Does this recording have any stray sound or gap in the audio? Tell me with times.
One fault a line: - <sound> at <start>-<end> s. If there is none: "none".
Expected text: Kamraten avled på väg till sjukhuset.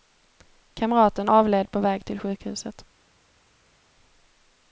none